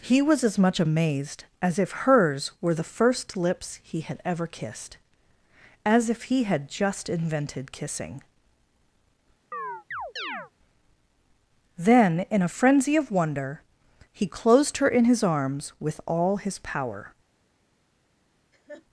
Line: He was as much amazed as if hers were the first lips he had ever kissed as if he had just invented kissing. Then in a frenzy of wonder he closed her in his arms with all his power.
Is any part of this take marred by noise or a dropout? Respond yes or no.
yes